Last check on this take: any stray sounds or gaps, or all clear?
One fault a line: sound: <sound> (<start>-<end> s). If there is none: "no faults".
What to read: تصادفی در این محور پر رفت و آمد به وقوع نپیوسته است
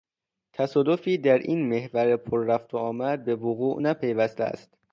no faults